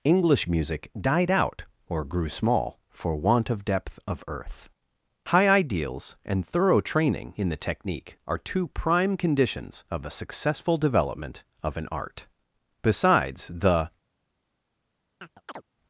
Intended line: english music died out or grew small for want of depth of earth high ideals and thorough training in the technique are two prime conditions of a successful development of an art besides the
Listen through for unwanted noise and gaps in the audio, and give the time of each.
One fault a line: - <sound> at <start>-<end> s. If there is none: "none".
- chirp at 15.2-15.6 s